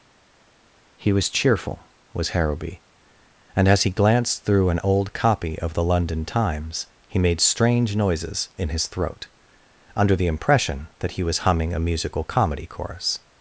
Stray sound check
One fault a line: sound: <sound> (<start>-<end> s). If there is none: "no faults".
no faults